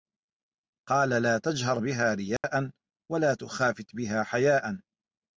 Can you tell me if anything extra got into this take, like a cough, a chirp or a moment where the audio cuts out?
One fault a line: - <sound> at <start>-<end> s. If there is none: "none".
- dropout at 2.4-2.4 s